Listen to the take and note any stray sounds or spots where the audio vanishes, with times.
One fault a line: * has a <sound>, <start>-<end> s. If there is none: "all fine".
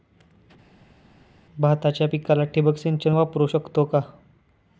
all fine